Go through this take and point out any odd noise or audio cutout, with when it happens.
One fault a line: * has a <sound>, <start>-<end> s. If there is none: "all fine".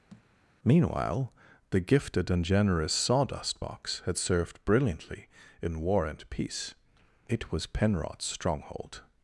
* has a thud, 0.1-0.3 s